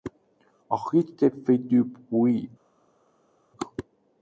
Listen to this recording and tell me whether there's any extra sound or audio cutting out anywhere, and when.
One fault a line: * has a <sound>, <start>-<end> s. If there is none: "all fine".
all fine